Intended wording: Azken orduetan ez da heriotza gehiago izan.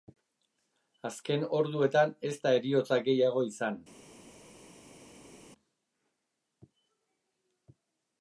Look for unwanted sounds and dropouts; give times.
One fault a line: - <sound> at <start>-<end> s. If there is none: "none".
none